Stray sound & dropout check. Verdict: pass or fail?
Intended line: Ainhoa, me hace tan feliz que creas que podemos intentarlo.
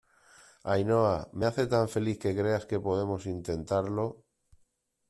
pass